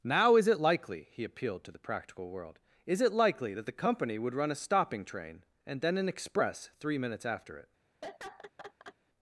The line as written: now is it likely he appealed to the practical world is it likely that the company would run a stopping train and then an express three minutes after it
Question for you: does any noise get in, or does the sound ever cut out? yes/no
yes